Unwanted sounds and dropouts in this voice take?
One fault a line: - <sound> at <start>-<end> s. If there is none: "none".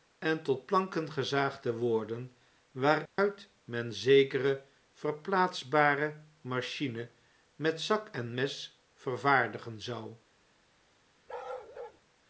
- dropout at 3.1-3.2 s
- bark at 11.3-12.0 s